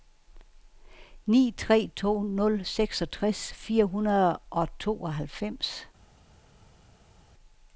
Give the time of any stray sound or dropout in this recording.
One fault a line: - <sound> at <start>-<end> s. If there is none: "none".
none